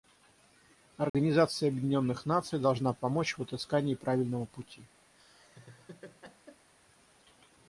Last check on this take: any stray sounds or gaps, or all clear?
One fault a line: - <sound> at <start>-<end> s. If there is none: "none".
- dropout at 1.1-1.1 s
- laugh at 5.1-6.7 s